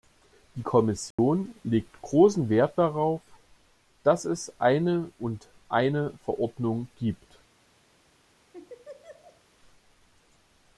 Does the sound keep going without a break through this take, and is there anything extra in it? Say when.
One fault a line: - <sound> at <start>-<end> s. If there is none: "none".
- dropout at 1.1-1.2 s
- laugh at 8.5-9.4 s